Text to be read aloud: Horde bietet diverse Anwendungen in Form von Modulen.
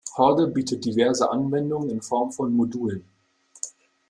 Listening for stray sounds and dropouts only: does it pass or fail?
pass